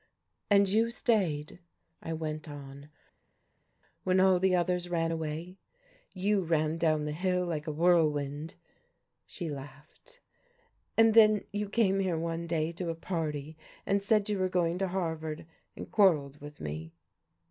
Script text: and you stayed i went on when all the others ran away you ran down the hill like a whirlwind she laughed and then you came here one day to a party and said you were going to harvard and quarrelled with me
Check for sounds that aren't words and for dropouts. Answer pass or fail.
pass